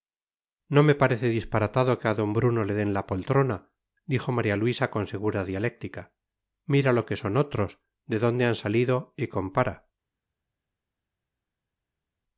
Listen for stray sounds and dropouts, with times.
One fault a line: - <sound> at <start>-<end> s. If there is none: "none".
none